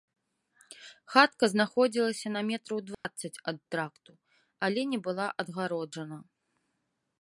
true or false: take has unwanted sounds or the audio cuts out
true